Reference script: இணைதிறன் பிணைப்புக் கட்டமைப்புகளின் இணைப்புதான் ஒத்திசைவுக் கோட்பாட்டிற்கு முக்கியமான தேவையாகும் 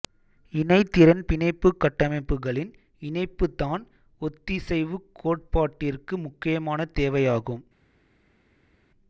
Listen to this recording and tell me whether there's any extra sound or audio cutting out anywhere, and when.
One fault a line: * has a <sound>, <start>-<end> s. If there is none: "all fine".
all fine